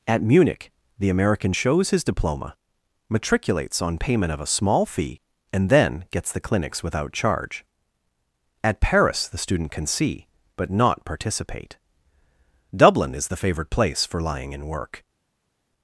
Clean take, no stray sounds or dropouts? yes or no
yes